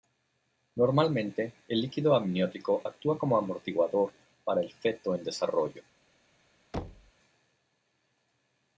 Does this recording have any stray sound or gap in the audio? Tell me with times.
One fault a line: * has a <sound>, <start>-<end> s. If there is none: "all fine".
* has a thud, 6.7-7.1 s